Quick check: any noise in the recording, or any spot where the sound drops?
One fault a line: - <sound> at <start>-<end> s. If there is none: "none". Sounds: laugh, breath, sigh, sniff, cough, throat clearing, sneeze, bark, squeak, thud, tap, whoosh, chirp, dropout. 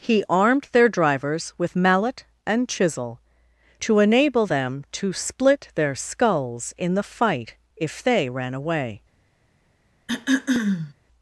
- throat clearing at 10.1-10.9 s